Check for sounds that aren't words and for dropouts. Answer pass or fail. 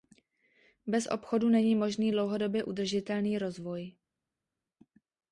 pass